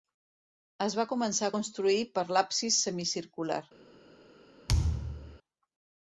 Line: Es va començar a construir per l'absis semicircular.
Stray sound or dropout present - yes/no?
yes